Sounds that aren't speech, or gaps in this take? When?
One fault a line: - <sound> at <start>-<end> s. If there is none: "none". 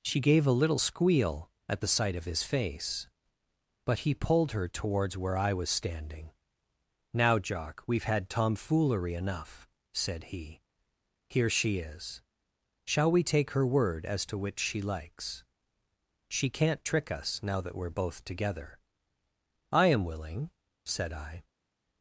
none